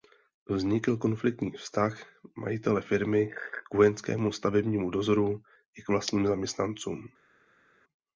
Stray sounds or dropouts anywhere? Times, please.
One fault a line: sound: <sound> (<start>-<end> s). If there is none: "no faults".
no faults